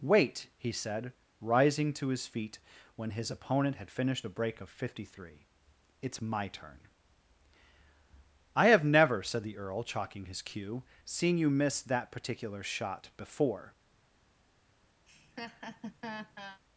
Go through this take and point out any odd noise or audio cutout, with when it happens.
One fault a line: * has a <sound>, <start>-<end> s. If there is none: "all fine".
* has a laugh, 15.1-16.6 s